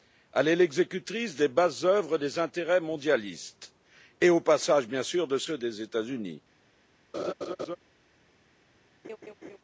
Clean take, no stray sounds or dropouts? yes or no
no